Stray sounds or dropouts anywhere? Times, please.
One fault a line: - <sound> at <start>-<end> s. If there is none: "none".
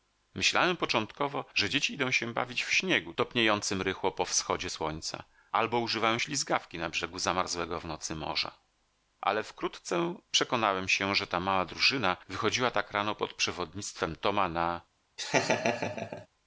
- laugh at 15.2-16.3 s